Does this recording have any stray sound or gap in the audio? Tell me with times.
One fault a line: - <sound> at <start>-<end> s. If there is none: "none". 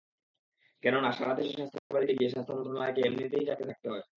- dropout at 1.8-1.9 s